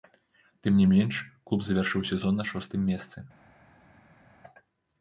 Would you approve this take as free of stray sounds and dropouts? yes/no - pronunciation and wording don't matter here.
yes